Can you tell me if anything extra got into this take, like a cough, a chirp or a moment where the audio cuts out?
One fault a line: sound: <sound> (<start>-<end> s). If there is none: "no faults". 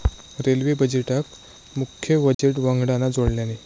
sound: dropout (2.3-2.4 s)